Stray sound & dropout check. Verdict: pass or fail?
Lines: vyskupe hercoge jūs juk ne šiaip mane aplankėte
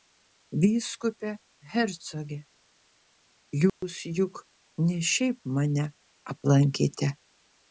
fail